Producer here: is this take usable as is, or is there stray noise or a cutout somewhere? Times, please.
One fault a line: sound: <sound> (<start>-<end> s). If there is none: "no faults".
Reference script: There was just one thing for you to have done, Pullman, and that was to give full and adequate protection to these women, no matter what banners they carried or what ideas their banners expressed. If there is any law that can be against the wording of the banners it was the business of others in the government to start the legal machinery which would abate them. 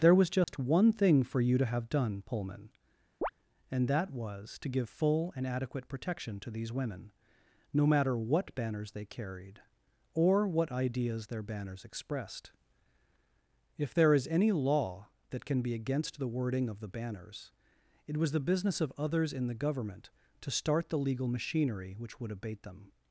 sound: dropout (0.4-0.5 s)
sound: chirp (3.2-3.3 s)